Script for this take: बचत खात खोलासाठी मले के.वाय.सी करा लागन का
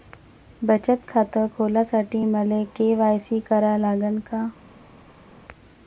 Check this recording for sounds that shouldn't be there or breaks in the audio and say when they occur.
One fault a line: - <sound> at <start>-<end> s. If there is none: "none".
none